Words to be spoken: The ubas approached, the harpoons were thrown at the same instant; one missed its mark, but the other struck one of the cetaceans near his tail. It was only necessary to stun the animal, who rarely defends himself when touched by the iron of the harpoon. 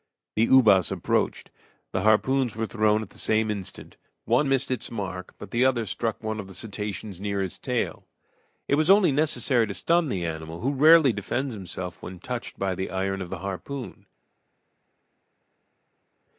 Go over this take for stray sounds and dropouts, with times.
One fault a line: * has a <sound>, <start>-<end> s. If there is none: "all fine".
all fine